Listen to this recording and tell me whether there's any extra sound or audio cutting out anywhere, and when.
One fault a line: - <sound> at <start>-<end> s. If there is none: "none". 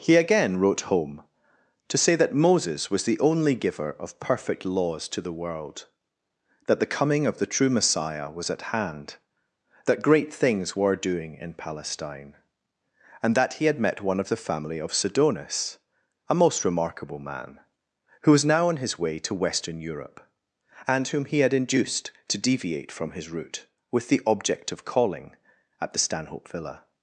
none